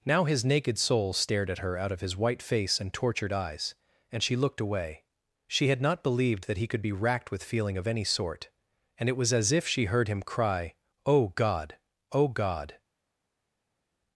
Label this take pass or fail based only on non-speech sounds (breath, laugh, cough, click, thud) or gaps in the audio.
pass